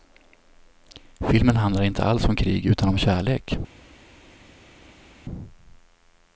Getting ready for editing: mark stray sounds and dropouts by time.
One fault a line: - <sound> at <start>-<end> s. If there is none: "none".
none